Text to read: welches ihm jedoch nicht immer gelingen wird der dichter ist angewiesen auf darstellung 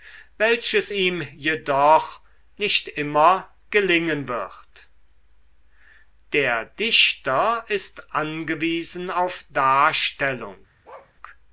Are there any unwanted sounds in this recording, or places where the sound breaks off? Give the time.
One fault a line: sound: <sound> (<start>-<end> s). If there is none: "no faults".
sound: bark (10.8-11.1 s)